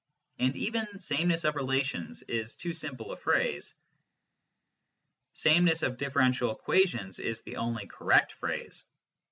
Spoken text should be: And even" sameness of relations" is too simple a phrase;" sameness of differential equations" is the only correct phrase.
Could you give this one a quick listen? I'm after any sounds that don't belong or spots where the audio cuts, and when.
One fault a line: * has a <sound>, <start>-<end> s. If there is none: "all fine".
all fine